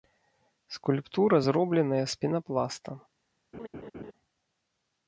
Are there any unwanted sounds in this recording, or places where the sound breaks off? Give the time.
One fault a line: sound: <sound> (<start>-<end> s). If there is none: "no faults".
sound: laugh (3.5-4.1 s)